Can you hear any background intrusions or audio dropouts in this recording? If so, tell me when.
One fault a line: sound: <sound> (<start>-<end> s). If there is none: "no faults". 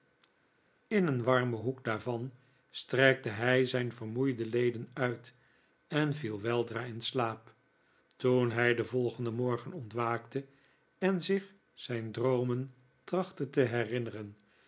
no faults